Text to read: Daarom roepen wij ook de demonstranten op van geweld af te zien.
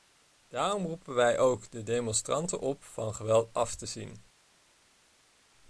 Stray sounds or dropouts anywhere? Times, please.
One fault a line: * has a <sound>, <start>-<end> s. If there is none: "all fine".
all fine